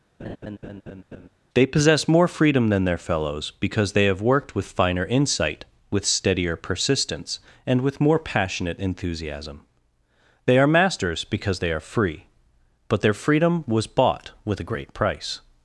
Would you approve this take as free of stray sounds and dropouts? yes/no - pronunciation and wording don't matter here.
no